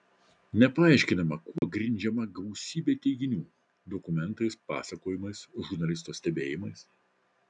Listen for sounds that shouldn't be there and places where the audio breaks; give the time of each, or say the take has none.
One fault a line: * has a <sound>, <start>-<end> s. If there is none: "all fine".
* has a dropout, 1.6-1.6 s